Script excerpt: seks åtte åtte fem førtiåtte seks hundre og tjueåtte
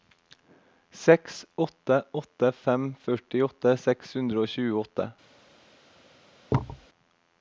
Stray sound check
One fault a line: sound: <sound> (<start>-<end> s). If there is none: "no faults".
sound: thud (6.5-6.9 s)